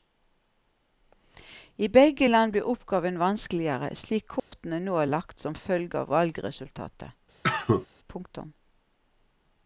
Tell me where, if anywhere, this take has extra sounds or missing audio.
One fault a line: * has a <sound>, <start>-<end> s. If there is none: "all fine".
* has a dropout, 4.4-4.5 s
* has a cough, 7.4-7.9 s